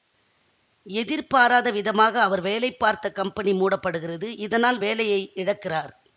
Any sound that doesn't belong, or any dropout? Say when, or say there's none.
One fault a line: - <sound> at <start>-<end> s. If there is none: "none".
none